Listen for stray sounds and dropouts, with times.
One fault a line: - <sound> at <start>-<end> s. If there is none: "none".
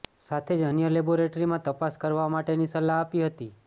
none